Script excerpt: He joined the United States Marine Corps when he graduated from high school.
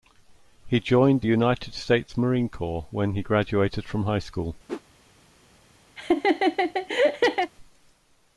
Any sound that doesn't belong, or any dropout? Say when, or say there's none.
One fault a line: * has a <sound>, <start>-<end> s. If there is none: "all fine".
* has a whoosh, 4.7-4.8 s
* has a laugh, 6.0-7.5 s